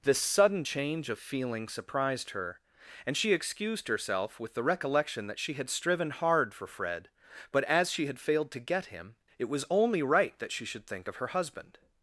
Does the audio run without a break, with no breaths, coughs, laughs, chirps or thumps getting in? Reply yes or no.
yes